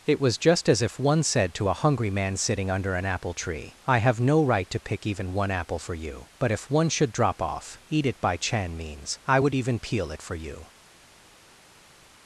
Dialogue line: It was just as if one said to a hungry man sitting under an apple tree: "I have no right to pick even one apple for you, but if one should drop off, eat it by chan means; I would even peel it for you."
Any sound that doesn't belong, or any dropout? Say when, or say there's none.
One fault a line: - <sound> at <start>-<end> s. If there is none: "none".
none